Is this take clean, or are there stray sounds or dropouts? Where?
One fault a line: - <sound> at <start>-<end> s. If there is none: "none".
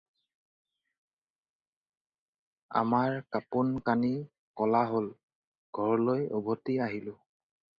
none